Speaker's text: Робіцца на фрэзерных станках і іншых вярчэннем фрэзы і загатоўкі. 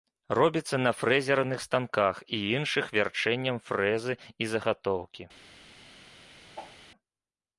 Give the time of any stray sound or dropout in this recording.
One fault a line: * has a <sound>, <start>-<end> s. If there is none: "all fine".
* has a whoosh, 6.6-6.8 s